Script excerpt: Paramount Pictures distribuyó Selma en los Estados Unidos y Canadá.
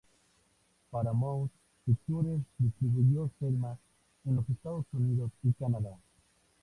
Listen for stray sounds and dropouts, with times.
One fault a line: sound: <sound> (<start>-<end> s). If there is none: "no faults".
no faults